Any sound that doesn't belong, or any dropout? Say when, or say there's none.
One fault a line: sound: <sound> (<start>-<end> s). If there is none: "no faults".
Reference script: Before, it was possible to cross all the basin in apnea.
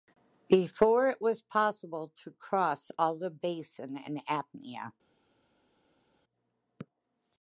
no faults